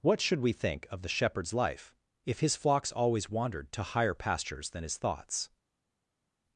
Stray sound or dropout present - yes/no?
no